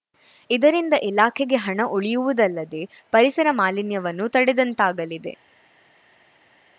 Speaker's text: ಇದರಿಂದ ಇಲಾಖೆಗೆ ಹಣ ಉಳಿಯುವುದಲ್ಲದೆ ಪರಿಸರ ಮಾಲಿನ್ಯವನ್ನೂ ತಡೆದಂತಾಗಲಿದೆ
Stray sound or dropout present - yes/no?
no